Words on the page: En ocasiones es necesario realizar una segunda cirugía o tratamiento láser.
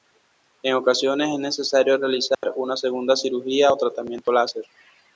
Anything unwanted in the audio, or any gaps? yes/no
yes